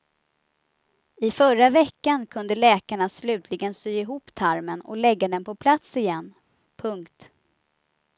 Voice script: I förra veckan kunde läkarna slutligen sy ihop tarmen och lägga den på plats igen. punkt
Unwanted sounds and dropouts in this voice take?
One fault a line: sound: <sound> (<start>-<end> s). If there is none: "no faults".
no faults